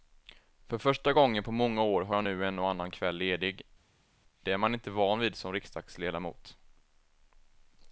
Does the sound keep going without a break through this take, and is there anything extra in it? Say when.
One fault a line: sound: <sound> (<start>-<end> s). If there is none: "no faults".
no faults